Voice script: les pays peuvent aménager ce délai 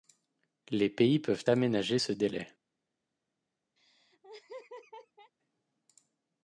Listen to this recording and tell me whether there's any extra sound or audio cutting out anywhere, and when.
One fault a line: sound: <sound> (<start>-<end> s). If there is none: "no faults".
sound: laugh (3.8-5.3 s)